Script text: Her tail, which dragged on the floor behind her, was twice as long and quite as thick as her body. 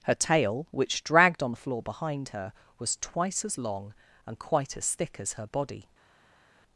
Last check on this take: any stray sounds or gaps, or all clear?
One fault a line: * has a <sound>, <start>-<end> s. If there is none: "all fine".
all fine